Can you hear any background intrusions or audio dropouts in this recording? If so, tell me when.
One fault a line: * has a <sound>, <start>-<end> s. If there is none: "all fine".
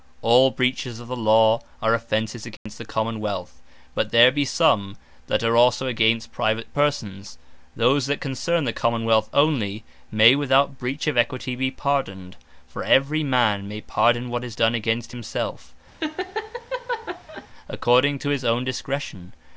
* has a dropout, 2.6-2.7 s
* has a laugh, 16.0-17.5 s